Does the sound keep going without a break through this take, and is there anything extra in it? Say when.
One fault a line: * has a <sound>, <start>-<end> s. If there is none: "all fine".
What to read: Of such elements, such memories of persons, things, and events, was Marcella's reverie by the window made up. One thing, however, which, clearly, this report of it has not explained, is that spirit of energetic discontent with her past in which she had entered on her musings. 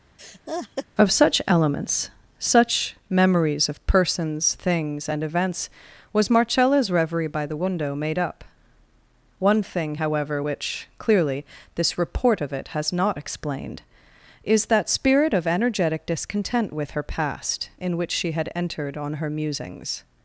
* has a laugh, 0.2-0.9 s